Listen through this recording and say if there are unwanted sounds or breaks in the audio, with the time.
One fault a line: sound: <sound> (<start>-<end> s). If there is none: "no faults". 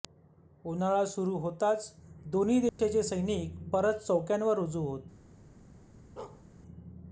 sound: dropout (2.7-2.8 s)
sound: bark (6.2-6.4 s)